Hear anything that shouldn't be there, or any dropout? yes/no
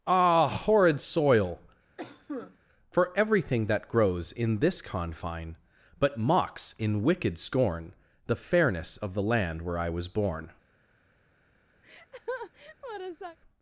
yes